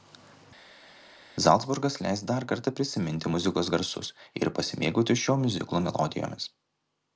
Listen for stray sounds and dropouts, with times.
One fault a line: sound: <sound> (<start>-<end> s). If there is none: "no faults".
no faults